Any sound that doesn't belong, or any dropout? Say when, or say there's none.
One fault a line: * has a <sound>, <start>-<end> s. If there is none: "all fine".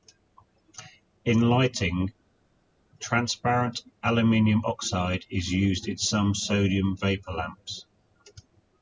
all fine